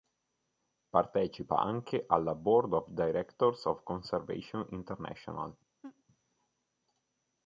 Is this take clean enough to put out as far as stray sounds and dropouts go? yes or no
no